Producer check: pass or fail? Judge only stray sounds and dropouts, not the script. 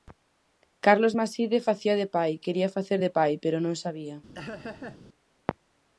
fail